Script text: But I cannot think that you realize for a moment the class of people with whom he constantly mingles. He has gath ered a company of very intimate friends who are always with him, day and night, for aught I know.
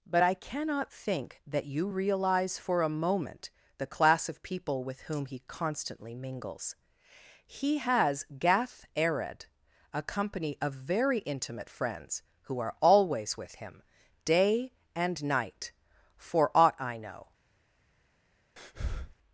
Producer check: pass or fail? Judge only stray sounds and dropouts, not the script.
fail